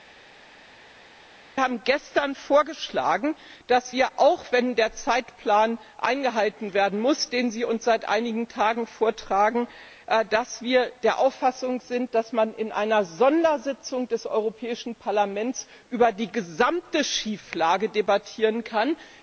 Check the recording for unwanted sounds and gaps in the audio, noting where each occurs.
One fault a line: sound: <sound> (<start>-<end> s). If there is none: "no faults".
no faults